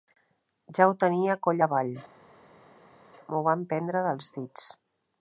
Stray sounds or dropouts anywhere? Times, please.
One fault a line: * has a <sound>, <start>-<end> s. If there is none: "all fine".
all fine